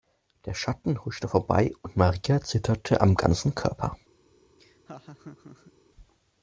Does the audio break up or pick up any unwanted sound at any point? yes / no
yes